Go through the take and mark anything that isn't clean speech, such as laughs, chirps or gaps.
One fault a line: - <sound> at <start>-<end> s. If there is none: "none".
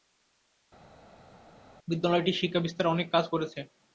none